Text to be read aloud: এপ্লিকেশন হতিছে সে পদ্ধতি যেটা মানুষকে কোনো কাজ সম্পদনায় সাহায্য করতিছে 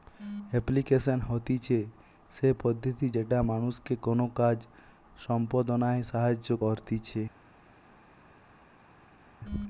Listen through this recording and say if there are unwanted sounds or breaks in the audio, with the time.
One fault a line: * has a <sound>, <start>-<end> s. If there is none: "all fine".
all fine